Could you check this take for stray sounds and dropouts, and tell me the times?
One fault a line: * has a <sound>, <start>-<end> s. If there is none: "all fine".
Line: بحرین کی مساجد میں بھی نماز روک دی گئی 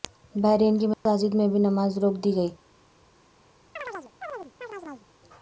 * has a dropout, 0.9-1.1 s
* has a chirp, 3.8-5.1 s